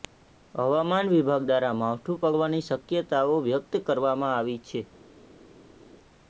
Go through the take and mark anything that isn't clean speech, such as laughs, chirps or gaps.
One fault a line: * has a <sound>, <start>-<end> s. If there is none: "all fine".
all fine